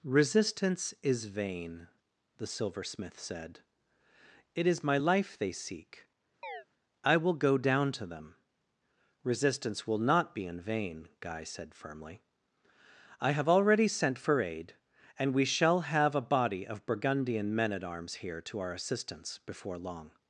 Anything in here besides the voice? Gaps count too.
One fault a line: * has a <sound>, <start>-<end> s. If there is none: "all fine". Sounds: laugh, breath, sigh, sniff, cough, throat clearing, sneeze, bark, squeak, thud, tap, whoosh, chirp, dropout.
* has a chirp, 6.4-6.7 s